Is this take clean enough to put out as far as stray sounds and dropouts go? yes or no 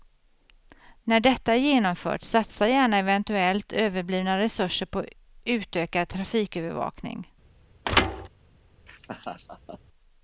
no